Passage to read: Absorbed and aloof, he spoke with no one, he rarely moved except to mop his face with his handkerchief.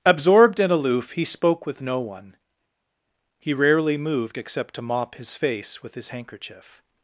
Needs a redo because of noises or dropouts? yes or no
no